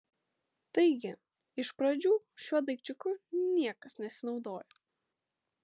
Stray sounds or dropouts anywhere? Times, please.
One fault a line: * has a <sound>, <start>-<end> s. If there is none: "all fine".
all fine